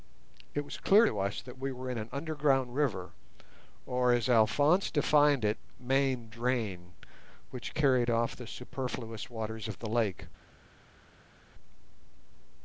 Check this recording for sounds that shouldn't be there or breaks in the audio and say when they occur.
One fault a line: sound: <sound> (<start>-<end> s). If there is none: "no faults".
no faults